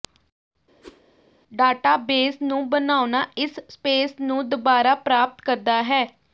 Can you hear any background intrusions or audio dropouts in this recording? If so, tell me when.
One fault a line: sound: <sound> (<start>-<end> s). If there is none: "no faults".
sound: whoosh (0.8-1.0 s)